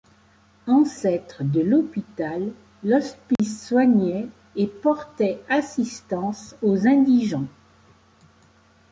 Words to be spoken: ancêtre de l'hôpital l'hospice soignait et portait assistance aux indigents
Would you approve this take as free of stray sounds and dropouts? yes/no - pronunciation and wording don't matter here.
no